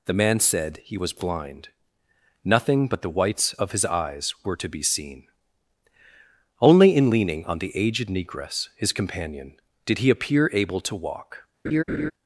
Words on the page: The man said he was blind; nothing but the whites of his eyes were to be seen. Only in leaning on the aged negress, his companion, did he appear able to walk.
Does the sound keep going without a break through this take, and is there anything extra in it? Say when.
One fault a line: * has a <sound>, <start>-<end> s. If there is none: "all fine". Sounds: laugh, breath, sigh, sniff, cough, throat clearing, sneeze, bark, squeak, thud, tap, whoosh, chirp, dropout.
* has a laugh, 11.6-12.1 s